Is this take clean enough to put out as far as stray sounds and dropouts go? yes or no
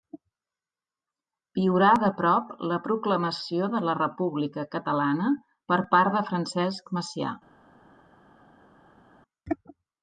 yes